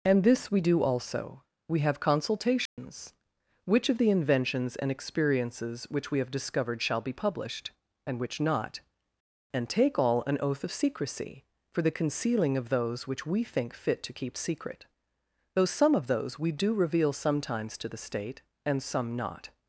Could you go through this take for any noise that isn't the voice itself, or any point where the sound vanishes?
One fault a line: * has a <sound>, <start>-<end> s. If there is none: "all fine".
* has a dropout, 2.7-2.8 s